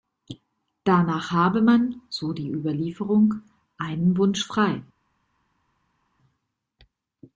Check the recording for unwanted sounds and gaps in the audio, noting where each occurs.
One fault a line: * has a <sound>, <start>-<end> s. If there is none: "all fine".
all fine